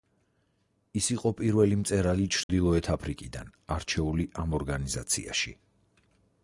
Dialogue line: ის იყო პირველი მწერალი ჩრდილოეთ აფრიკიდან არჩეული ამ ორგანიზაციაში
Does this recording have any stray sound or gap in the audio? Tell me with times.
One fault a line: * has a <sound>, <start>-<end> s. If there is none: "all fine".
* has a dropout, 2.4-2.5 s